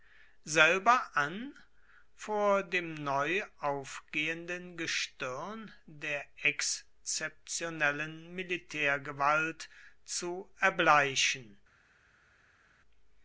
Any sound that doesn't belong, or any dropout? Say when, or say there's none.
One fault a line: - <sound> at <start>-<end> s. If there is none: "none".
none